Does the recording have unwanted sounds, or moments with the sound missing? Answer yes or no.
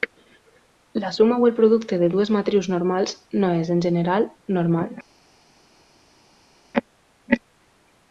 no